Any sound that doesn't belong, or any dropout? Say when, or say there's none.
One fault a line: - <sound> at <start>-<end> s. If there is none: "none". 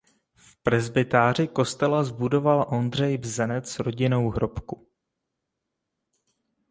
none